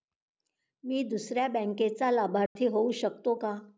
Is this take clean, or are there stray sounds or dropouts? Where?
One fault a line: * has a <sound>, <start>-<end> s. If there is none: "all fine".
* has a dropout, 2.5-2.6 s